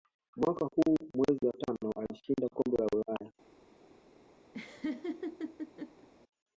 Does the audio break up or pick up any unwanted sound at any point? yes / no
yes